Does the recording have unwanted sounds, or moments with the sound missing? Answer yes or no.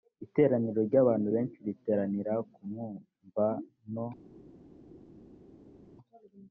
no